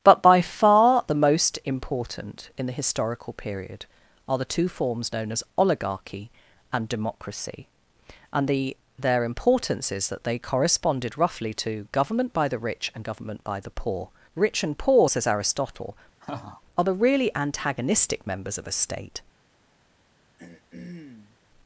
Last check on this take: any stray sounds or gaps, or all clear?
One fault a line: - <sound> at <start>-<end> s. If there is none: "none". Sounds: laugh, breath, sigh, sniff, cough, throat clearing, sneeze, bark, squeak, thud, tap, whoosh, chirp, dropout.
- laugh at 16.2-16.6 s
- throat clearing at 20.4-21.4 s